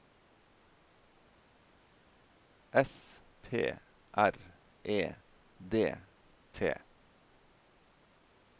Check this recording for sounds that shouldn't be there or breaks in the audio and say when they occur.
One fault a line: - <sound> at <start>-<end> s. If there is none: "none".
none